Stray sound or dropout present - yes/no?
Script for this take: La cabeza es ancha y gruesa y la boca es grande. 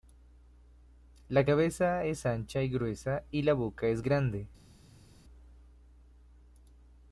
no